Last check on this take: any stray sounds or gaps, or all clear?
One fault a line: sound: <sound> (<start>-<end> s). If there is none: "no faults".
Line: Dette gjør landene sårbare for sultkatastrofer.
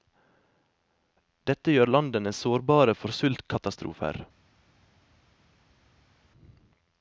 no faults